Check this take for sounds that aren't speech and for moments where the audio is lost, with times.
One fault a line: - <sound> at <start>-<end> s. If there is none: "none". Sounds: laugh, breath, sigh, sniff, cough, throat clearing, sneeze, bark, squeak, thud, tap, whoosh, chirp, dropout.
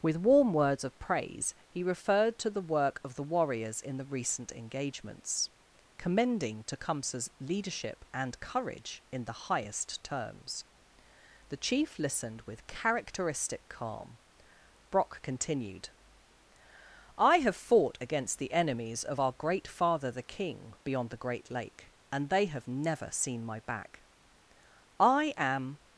none